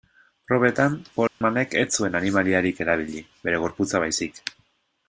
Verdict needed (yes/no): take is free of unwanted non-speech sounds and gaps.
no